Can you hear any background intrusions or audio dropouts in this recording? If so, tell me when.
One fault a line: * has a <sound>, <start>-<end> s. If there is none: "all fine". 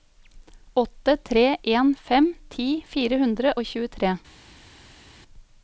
all fine